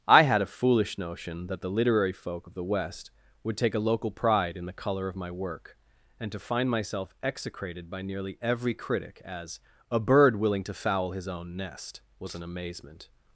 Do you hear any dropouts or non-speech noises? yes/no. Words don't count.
no